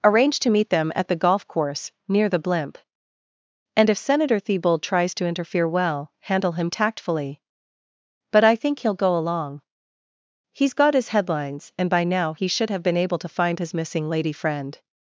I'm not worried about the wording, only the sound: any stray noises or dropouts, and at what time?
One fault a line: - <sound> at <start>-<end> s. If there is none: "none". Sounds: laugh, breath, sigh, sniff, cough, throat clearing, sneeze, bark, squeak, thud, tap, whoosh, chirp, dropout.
none